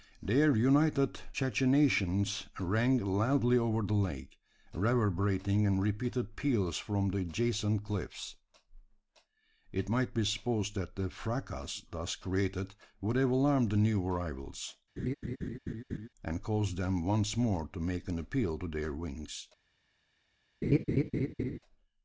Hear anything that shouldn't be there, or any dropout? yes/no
yes